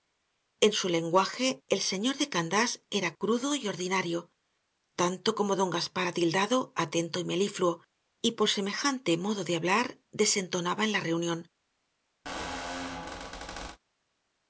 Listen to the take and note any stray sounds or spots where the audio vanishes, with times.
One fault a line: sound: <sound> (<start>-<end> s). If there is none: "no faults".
sound: squeak (12.3-13.8 s)